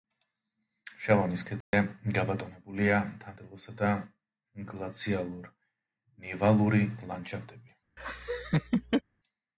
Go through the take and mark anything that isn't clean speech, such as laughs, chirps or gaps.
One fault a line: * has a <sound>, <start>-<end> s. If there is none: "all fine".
* has a dropout, 1.6-1.7 s
* has a laugh, 8.0-9.0 s